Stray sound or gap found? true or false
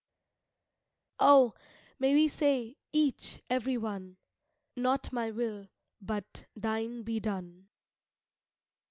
false